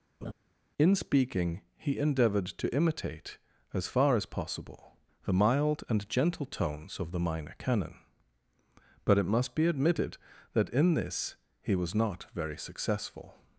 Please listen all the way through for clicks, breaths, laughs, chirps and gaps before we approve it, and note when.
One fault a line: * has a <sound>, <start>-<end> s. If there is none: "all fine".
* has a laugh, 0.2-0.3 s